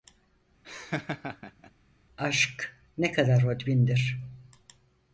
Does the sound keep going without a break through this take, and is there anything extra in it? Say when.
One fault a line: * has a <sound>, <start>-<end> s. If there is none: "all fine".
* has a laugh, 0.6-1.7 s